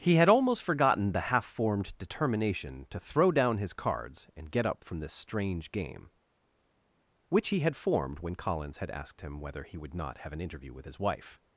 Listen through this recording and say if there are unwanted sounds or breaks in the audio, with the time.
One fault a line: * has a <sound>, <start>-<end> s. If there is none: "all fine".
all fine